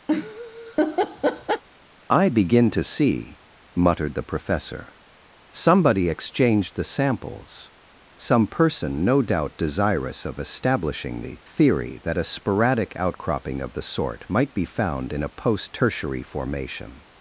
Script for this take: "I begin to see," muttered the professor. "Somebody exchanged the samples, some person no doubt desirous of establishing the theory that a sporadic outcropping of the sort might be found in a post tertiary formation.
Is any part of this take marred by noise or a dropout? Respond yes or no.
yes